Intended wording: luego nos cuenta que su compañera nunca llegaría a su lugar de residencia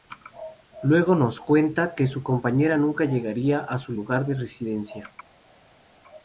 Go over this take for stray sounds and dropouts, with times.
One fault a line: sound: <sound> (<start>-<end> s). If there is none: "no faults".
no faults